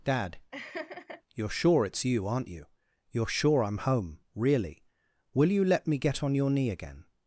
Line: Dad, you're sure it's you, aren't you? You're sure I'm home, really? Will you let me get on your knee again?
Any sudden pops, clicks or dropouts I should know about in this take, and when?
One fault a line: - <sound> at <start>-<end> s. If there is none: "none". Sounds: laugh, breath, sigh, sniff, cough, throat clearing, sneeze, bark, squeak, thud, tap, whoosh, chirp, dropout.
- laugh at 0.5-1.2 s